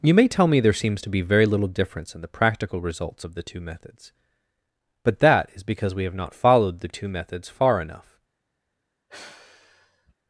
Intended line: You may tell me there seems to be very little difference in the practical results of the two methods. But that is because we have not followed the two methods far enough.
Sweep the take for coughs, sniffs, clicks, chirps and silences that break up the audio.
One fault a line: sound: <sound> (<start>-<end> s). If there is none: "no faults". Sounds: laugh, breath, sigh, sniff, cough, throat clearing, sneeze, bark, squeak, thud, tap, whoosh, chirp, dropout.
sound: sigh (9.1-10.1 s)